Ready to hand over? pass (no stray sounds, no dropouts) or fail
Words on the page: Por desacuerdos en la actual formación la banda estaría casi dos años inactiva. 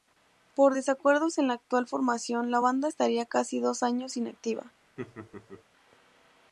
fail